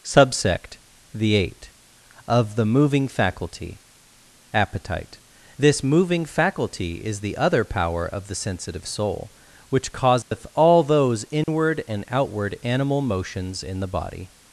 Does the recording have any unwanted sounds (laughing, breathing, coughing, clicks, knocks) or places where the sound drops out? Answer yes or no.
yes